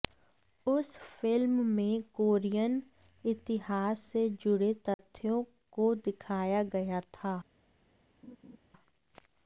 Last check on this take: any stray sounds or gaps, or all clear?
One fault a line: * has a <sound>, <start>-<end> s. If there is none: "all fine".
* has a dropout, 4.9-5.0 s
* has a laugh, 8.2-8.6 s